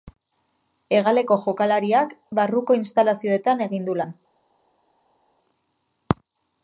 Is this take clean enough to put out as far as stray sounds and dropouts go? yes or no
yes